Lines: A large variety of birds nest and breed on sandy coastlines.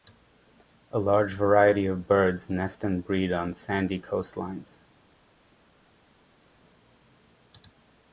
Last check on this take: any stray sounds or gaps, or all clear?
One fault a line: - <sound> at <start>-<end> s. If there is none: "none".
none